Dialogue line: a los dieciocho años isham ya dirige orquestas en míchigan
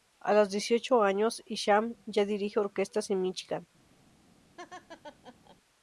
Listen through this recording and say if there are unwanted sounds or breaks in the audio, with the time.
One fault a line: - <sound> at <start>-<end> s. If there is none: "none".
- laugh at 4.6-5.6 s